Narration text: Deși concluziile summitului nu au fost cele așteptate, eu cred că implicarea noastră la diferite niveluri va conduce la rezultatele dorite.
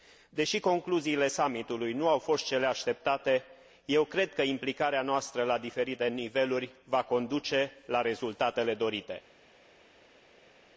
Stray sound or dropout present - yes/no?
no